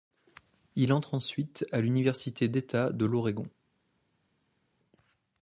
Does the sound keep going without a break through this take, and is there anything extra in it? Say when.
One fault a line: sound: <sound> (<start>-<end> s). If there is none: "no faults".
no faults